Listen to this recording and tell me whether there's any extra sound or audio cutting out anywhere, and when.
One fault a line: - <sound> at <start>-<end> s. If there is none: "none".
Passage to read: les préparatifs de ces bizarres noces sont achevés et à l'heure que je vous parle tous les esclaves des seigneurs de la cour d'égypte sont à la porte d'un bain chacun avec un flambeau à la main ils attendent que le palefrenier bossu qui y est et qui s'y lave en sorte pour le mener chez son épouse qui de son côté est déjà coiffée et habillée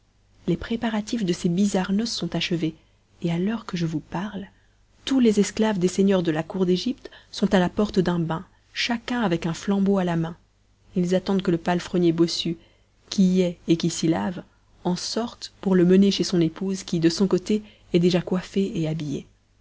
none